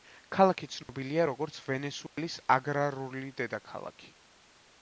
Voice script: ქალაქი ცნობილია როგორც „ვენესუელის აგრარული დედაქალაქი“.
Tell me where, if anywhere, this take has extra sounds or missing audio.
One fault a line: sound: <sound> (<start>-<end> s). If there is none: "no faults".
sound: dropout (0.8-0.9 s)
sound: dropout (2.1-2.2 s)